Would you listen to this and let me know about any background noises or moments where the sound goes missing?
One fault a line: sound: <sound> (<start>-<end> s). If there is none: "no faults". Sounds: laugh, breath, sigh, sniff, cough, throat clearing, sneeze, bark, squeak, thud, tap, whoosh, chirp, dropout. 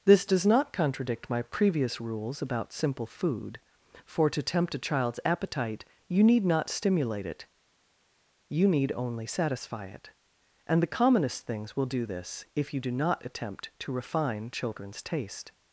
no faults